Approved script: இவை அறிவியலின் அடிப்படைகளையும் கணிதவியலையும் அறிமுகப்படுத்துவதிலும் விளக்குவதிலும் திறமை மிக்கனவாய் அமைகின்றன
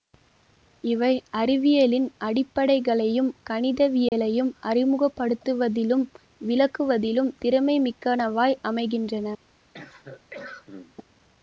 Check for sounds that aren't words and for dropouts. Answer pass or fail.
fail